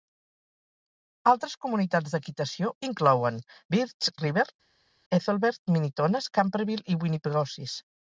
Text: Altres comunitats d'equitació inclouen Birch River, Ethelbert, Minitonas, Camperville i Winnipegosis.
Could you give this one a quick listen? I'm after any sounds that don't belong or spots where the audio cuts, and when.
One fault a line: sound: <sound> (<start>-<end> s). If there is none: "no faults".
no faults